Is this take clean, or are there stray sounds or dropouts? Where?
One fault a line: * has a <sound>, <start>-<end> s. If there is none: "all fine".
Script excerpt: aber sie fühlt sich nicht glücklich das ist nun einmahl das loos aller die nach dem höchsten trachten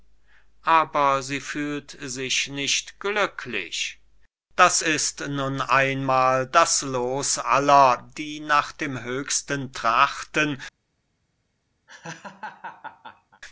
* has a laugh, 11.9-13.4 s